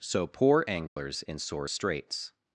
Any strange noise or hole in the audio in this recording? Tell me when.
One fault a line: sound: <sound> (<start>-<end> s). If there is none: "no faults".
sound: dropout (0.9-1.0 s)